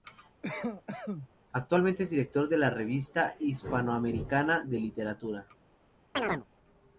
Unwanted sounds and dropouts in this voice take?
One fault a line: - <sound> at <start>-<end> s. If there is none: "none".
- cough at 0.4-1.3 s
- chirp at 6.1-6.5 s